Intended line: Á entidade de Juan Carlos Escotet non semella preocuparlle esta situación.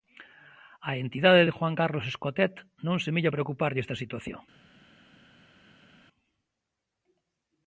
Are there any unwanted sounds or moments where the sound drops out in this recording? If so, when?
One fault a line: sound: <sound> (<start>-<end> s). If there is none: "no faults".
no faults